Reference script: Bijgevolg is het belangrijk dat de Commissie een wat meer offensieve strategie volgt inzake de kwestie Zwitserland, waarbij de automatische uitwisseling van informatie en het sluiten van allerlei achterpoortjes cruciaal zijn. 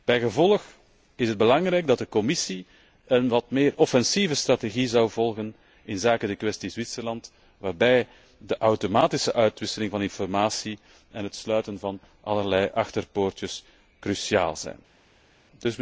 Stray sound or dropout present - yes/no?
no